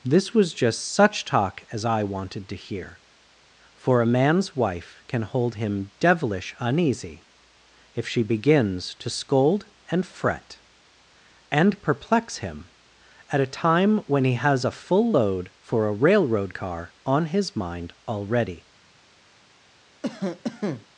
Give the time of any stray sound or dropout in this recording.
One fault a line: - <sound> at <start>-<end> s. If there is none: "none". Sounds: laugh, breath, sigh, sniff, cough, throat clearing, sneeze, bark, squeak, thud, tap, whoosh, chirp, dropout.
- cough at 20.0-20.9 s